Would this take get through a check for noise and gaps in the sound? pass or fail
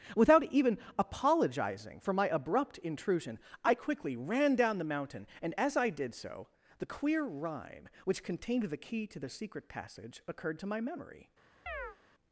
fail